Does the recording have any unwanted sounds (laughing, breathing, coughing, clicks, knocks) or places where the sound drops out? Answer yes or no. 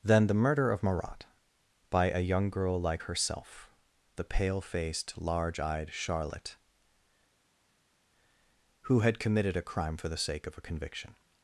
no